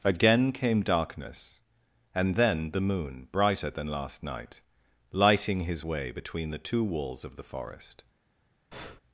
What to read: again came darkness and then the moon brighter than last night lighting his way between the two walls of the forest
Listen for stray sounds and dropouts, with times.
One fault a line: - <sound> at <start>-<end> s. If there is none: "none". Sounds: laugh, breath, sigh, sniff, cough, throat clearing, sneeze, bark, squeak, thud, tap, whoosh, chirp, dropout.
- breath at 8.7-9.0 s